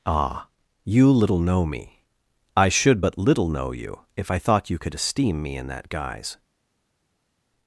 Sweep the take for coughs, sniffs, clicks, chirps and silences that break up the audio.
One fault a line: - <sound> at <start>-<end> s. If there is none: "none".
none